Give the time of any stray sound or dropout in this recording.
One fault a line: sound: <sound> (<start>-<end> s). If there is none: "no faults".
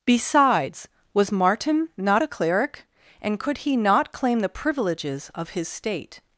no faults